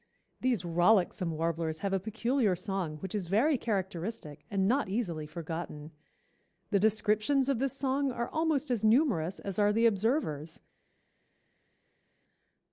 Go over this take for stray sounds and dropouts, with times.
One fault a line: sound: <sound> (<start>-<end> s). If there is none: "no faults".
no faults